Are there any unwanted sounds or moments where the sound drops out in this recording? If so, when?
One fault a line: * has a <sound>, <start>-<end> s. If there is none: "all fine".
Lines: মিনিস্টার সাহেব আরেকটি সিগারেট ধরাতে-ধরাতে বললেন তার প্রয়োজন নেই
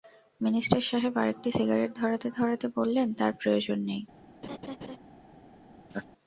* has a laugh, 4.4-5.0 s
* has a laugh, 5.9-6.1 s